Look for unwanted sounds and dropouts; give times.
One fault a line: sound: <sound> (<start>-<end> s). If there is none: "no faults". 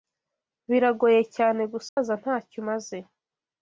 sound: dropout (1.9-2.0 s)